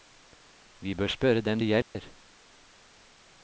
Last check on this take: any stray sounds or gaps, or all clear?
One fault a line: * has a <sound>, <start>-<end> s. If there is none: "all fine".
* has a dropout, 1.8-2.0 s